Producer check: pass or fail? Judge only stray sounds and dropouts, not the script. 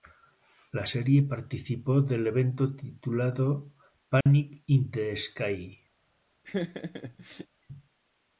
fail